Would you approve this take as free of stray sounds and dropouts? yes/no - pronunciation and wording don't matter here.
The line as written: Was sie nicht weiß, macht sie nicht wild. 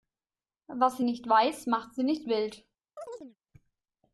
no